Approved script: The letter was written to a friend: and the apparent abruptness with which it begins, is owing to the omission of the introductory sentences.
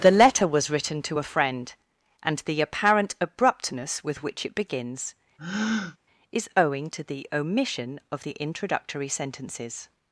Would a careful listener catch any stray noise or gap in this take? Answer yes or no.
yes